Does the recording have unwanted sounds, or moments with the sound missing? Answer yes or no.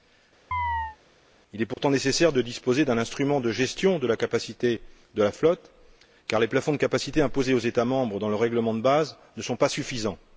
yes